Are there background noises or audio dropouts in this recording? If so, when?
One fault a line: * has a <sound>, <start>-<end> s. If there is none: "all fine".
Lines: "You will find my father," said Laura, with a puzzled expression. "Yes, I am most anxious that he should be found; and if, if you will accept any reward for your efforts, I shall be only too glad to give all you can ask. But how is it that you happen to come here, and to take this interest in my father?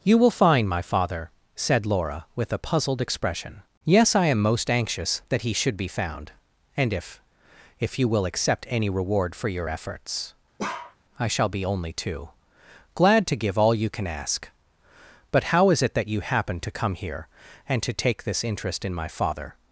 * has a bark, 10.6-11.0 s